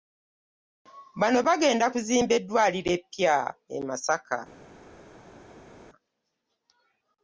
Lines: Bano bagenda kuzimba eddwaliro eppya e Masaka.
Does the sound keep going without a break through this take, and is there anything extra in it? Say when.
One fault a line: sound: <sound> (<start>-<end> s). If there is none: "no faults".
no faults